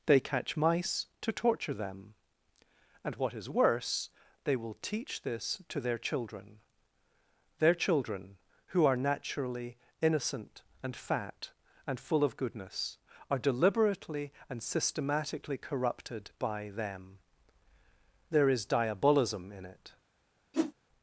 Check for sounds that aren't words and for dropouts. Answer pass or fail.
fail